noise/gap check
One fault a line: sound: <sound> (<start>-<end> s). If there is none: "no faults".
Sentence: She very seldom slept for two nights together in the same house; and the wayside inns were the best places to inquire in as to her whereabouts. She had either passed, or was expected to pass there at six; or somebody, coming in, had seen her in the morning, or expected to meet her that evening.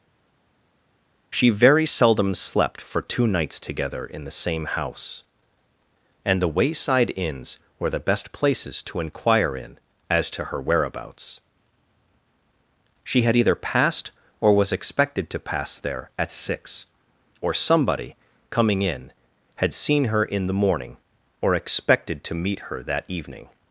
no faults